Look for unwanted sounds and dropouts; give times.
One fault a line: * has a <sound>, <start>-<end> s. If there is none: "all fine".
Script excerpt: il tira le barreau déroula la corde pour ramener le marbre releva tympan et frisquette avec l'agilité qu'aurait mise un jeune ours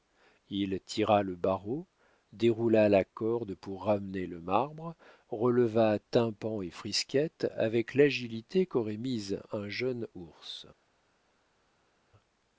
all fine